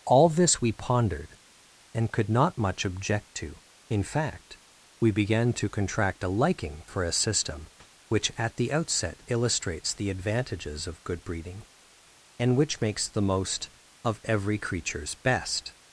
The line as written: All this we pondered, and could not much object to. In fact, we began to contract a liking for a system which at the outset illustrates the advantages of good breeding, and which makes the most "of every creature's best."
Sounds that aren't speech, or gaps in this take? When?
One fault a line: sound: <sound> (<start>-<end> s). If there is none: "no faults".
no faults